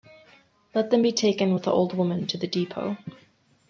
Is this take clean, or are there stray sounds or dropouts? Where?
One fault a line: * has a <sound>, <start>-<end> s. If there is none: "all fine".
all fine